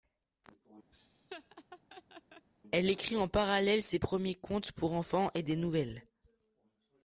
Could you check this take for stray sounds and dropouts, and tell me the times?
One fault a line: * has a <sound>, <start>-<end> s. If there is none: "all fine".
* has a laugh, 0.9-2.5 s